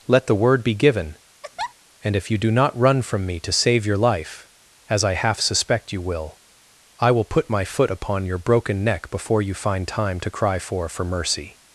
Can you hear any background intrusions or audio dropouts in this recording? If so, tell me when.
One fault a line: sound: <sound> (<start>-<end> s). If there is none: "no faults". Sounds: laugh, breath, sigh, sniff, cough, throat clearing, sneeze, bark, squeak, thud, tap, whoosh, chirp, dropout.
sound: laugh (1.4-1.7 s)